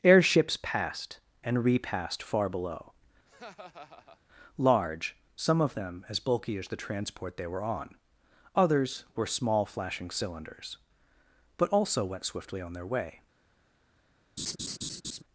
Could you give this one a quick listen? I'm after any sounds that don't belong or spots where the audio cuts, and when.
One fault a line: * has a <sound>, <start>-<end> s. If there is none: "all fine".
* has a laugh, 3.3-4.2 s
* has a laugh, 14.4-15.2 s